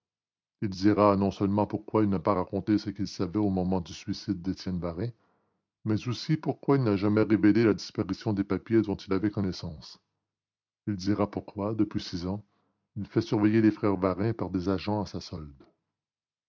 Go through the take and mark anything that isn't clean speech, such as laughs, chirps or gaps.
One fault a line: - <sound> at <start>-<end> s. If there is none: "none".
none